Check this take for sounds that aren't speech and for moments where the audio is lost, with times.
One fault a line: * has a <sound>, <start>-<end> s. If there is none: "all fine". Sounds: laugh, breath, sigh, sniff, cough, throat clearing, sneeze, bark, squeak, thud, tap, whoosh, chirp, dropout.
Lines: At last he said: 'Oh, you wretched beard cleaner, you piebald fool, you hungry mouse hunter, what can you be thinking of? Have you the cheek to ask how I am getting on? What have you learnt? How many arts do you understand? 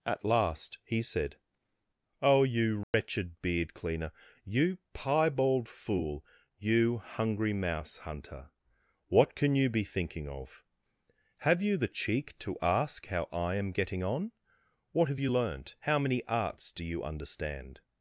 * has a dropout, 2.8-2.9 s